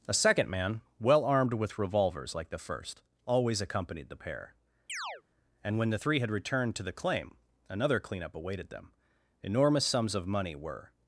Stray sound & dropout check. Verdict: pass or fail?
fail